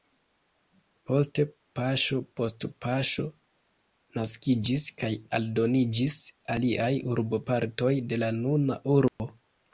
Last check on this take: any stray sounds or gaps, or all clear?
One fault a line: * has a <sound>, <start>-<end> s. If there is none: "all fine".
* has a dropout, 9.1-9.2 s